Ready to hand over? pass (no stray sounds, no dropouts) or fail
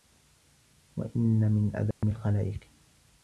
fail